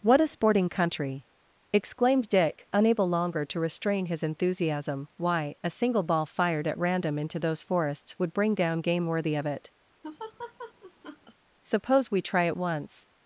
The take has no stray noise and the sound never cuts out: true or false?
false